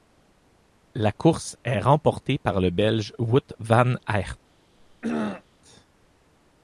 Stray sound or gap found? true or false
true